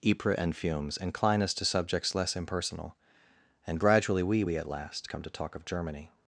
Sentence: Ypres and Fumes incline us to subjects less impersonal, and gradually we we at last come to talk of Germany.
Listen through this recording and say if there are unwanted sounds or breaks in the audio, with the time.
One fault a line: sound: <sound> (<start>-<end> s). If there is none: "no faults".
no faults